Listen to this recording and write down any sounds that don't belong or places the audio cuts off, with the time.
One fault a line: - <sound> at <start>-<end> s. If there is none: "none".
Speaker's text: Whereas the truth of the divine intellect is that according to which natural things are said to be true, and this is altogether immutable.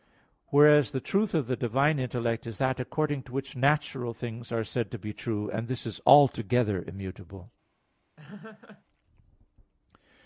- laugh at 8.2-8.8 s